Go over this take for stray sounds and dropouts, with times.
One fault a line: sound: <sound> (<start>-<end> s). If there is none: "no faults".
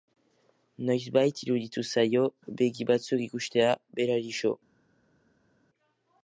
no faults